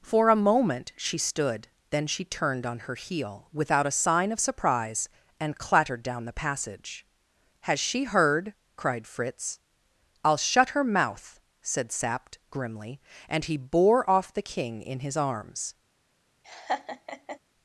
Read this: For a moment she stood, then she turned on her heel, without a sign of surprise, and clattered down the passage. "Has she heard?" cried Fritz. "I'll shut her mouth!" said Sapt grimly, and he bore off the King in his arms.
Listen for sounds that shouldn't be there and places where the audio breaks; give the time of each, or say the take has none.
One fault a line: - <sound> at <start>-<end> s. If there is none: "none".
- laugh at 16.4-17.4 s